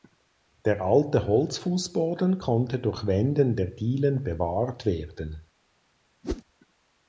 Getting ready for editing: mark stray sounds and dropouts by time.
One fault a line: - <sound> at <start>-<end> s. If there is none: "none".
- whoosh at 6.2-6.4 s